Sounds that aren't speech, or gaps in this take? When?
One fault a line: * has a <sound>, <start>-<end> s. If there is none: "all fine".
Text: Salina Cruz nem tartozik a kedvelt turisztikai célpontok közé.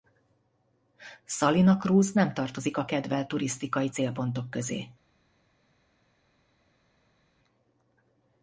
all fine